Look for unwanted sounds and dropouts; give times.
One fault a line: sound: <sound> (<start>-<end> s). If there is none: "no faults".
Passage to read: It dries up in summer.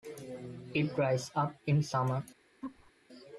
sound: laugh (2.6-2.9 s)